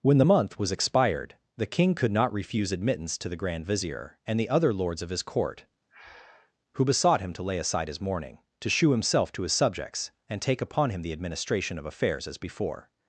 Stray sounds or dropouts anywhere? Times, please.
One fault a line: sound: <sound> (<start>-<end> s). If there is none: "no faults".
sound: breath (5.9-6.5 s)